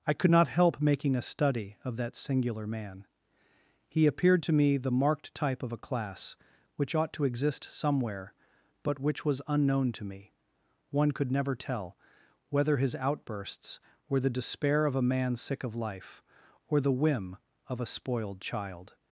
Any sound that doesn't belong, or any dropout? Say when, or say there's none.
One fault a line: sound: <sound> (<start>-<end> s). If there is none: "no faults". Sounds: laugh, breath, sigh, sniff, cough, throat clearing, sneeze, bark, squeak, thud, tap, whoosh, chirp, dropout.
no faults